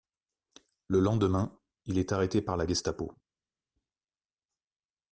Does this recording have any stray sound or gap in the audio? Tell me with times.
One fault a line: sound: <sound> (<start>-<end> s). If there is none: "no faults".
no faults